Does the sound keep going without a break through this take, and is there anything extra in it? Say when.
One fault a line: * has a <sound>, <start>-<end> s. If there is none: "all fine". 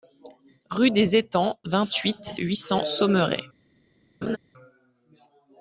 * has a laugh, 4.2-4.4 s